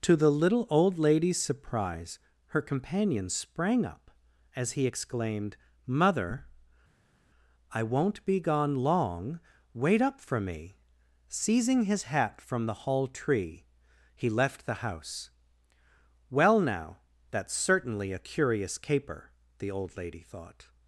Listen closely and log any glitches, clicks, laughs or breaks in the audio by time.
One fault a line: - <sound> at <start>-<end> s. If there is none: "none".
none